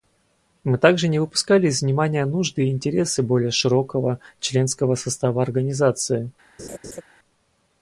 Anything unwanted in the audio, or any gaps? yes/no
yes